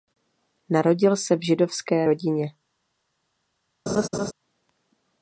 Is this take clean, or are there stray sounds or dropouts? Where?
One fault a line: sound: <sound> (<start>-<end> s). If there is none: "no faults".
sound: laugh (3.9-4.3 s)